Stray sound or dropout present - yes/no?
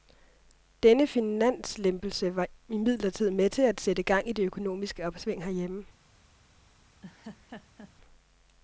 yes